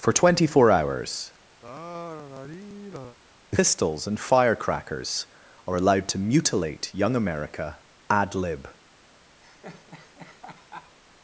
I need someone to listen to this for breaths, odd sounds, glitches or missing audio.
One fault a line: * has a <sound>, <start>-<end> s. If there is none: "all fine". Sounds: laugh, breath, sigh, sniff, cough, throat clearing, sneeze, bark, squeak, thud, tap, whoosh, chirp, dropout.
* has a sigh, 1.6-3.2 s
* has a laugh, 9.4-11.0 s